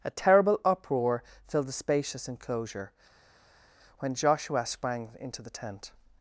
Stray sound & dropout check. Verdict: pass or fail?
pass